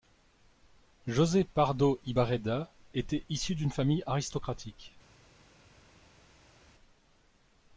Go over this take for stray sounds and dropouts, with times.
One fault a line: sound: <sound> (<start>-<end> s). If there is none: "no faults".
no faults